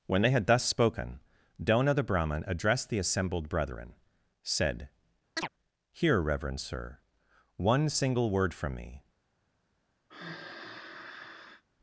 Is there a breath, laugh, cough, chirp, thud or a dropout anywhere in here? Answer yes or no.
yes